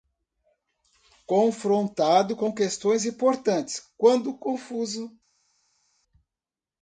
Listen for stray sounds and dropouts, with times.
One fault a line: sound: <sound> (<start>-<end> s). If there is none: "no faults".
no faults